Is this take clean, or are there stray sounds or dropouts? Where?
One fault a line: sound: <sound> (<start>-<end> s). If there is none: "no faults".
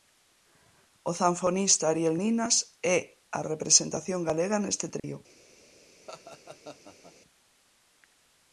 sound: dropout (5.0-5.0 s)
sound: laugh (6.1-7.1 s)